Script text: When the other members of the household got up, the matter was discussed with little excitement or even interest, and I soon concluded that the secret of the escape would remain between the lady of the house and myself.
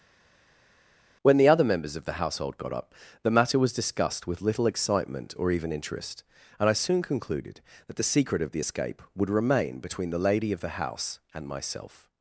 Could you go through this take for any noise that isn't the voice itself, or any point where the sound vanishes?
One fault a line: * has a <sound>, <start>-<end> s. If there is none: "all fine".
all fine